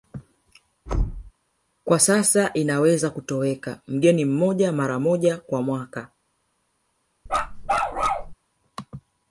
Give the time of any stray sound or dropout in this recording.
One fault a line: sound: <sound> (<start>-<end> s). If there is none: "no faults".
sound: thud (0.9-1.3 s)
sound: bark (7.3-8.3 s)